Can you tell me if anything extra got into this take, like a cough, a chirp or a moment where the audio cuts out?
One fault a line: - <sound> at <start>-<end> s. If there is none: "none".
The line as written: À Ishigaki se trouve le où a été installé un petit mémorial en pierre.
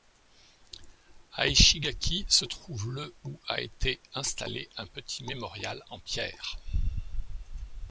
none